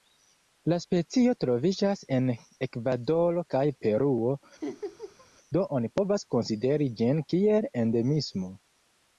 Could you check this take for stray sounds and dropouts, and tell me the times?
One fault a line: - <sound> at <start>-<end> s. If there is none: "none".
- laugh at 4.6-5.3 s